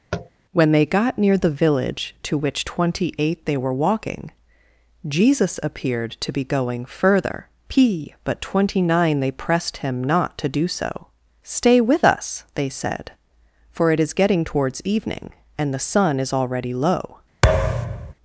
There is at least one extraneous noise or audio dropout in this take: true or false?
true